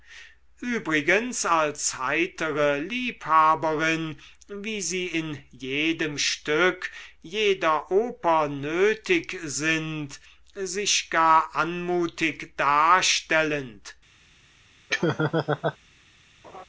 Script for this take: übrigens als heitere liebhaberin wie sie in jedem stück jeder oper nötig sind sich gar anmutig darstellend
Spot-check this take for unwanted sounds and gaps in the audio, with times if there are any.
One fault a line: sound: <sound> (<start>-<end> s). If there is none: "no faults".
sound: laugh (14.9-15.8 s)
sound: laugh (16.4-16.7 s)